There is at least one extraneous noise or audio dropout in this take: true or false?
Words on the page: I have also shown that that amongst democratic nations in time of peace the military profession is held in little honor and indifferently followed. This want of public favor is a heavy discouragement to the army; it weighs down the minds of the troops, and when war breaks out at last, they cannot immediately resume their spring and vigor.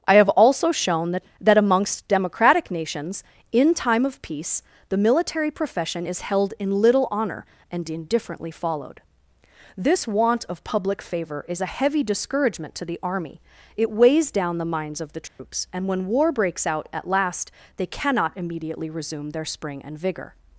true